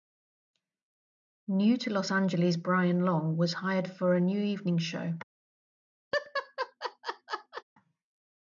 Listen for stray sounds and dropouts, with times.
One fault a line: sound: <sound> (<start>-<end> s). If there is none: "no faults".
sound: laugh (6.1-7.6 s)